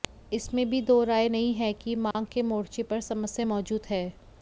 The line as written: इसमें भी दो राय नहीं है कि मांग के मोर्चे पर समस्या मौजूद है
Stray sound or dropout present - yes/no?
yes